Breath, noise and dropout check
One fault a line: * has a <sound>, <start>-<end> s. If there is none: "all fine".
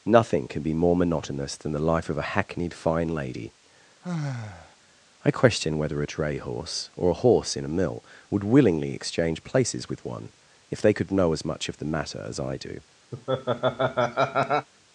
* has a sigh, 4.0-4.8 s
* has a laugh, 13.1-14.7 s